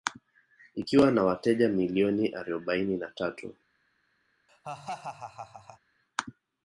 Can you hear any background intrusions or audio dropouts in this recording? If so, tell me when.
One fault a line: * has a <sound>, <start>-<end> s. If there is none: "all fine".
* has a laugh, 4.5-5.8 s